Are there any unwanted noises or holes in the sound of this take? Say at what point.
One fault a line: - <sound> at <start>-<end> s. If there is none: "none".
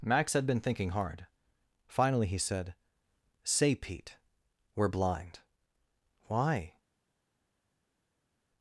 none